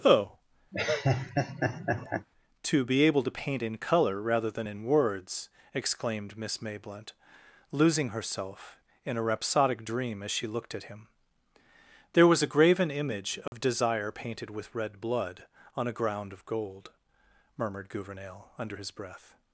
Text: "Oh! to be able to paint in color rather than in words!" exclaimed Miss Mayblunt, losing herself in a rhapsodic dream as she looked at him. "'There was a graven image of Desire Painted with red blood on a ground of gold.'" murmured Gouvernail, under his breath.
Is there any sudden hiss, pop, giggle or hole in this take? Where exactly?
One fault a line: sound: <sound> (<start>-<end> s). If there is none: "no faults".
sound: laugh (0.7-2.3 s)
sound: dropout (13.5-13.5 s)